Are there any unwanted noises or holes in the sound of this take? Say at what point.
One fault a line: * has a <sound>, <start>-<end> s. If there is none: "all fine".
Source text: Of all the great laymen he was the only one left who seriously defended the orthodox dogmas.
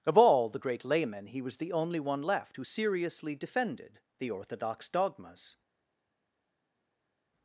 all fine